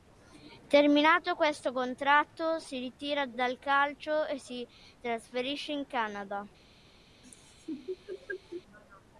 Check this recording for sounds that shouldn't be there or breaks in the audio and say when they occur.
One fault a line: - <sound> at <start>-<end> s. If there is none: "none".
- laugh at 7.2-8.6 s